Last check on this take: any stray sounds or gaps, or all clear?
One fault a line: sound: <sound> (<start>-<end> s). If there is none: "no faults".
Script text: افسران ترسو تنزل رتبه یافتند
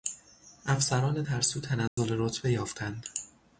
sound: dropout (1.9-2.0 s)